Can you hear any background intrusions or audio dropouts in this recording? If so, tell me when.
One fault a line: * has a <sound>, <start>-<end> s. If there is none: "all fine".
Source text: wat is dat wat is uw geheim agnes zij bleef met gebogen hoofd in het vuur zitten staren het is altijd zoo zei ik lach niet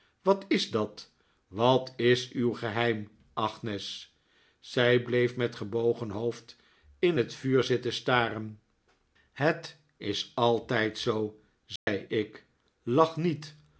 * has a dropout, 11.8-11.9 s